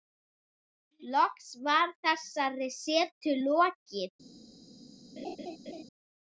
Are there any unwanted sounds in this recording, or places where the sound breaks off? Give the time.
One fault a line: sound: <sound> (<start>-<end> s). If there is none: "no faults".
sound: laugh (5.2-5.8 s)